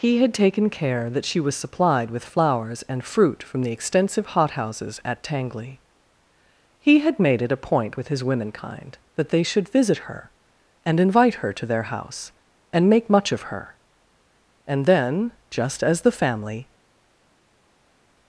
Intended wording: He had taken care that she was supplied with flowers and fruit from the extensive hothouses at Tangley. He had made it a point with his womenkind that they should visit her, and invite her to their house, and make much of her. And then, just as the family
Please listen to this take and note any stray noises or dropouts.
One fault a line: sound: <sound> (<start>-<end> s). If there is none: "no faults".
no faults